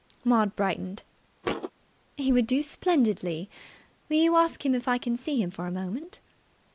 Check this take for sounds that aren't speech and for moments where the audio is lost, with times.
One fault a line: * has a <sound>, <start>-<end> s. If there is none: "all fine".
* has a thud, 1.4-1.7 s